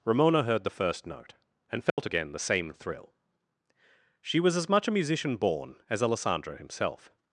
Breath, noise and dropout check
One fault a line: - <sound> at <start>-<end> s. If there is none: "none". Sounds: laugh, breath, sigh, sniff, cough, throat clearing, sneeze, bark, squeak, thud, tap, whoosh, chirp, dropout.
- dropout at 1.9-2.0 s